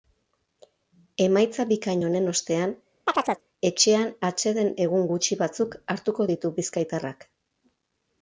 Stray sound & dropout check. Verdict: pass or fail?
fail